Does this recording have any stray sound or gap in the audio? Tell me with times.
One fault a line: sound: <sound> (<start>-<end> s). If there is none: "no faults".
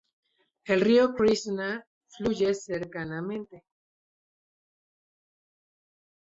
no faults